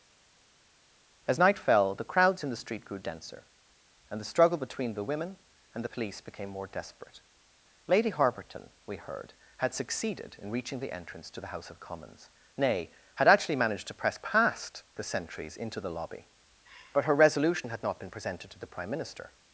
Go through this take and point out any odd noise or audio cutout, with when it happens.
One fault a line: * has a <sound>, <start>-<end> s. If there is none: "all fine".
all fine